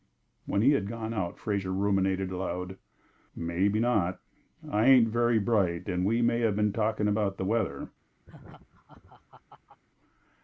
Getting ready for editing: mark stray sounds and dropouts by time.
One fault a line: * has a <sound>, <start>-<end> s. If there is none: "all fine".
* has a laugh, 8.3-9.8 s